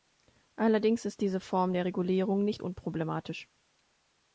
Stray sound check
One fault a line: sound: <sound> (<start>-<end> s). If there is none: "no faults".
no faults